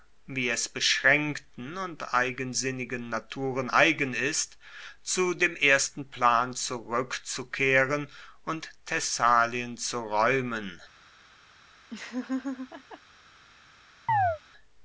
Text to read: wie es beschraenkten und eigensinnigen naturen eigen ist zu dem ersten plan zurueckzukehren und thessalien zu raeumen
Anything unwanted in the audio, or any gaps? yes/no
yes